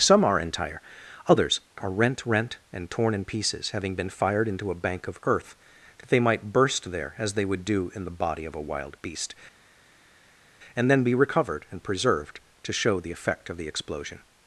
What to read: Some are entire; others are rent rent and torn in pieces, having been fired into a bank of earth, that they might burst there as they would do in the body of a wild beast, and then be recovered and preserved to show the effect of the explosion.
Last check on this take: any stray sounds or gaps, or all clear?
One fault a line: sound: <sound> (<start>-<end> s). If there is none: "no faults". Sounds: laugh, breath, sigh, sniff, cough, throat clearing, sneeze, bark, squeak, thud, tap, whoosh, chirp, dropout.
no faults